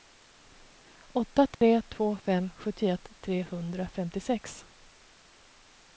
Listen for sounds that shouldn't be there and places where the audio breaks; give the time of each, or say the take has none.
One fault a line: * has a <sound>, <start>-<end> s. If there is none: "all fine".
* has a dropout, 1.5-1.6 s